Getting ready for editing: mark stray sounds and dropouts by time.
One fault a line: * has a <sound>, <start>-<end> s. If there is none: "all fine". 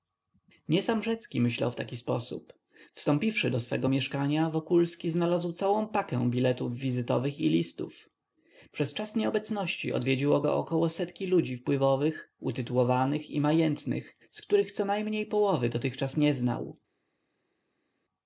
all fine